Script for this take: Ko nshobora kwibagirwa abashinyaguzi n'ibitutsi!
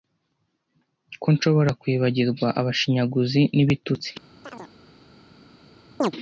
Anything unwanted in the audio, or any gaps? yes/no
yes